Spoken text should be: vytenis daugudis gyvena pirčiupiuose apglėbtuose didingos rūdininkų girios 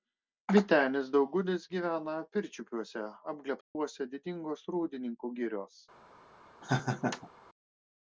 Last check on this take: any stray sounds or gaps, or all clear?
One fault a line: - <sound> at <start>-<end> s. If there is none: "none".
- dropout at 3.6-3.8 s
- laugh at 6.6-7.3 s